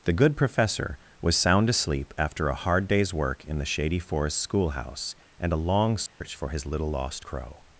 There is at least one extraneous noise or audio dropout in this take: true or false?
true